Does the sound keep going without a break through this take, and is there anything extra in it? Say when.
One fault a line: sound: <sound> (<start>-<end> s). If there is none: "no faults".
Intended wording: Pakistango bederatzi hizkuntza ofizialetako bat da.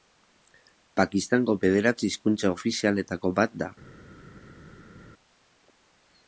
no faults